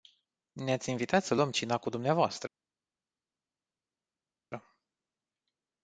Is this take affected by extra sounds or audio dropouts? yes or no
no